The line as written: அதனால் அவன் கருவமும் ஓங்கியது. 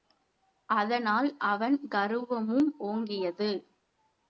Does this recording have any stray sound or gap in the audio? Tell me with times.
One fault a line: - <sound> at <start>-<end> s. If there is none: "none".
none